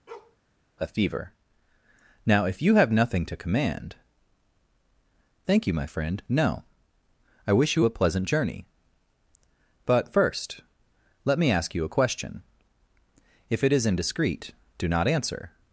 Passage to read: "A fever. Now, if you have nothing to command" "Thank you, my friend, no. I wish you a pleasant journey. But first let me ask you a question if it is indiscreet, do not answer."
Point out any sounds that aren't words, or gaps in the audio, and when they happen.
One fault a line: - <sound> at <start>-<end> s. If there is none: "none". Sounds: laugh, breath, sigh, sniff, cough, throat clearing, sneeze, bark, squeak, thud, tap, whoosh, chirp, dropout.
- bark at 0.1-0.4 s